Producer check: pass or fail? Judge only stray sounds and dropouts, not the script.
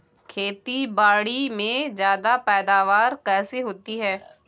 pass